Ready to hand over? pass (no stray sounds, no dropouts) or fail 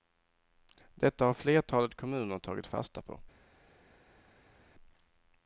pass